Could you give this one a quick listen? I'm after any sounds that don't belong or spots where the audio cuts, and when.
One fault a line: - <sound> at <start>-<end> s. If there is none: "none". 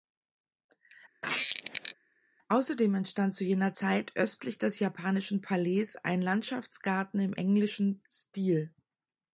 - squeak at 1.2-1.9 s